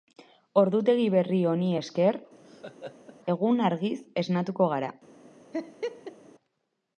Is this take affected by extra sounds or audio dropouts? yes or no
yes